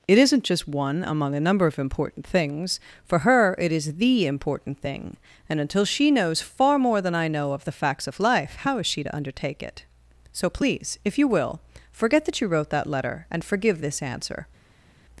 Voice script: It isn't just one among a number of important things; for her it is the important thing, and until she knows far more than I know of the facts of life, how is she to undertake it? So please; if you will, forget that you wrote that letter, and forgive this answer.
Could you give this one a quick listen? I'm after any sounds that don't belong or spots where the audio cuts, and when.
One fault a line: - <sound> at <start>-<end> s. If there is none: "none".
none